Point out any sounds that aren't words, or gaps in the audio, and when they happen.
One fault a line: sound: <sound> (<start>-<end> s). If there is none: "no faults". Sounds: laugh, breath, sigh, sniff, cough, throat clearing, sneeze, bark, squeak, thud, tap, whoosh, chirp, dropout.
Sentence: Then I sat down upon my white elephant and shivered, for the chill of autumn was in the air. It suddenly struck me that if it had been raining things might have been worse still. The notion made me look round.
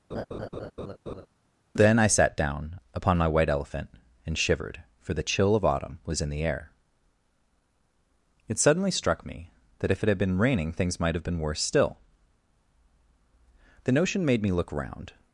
sound: laugh (0.1-1.3 s)